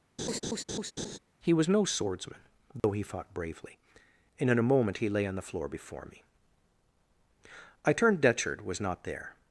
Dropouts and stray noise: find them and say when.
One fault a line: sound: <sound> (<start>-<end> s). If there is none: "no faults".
sound: laugh (0.2-1.2 s)
sound: dropout (2.8-2.8 s)